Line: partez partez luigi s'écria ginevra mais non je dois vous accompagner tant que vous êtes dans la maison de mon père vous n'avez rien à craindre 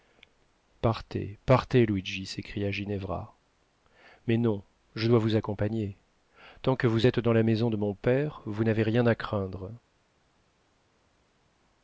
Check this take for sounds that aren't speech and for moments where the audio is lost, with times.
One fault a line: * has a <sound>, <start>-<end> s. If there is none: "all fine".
all fine